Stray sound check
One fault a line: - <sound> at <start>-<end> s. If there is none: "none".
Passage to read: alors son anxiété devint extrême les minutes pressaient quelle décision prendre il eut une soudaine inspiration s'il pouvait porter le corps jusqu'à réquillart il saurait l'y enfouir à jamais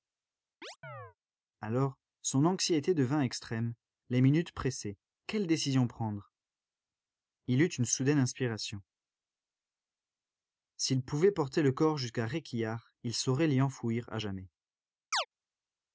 - chirp at 0.6-1.2 s
- chirp at 15.1-15.3 s